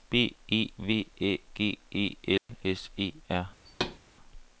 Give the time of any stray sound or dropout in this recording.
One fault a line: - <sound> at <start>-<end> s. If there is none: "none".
- dropout at 2.4-2.5 s
- thud at 3.7-4.0 s